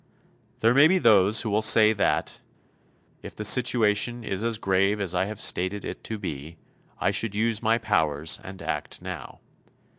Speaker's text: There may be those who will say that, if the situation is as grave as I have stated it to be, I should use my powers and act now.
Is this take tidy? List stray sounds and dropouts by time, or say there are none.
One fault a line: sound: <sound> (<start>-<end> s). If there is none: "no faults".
no faults